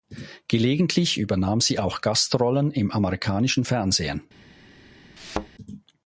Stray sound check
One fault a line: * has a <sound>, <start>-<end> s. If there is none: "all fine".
* has a thud, 5.2-5.5 s